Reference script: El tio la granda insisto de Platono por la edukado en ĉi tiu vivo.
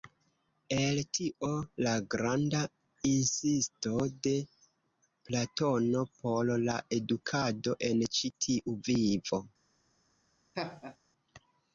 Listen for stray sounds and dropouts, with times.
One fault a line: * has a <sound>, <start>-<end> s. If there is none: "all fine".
* has a laugh, 10.5-11.0 s